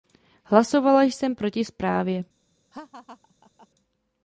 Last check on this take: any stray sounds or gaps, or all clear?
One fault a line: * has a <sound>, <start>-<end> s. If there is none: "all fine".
* has a laugh, 2.7-3.7 s